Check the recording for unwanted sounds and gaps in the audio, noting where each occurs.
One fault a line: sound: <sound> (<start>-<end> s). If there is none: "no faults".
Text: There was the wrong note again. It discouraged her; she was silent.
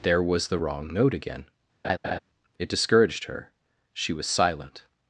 sound: laugh (1.8-2.2 s)